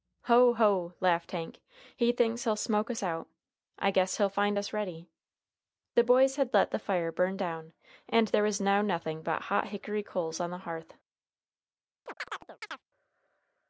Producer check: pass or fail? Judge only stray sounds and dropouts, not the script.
fail